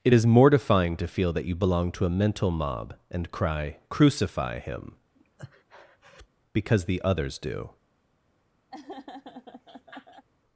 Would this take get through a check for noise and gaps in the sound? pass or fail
fail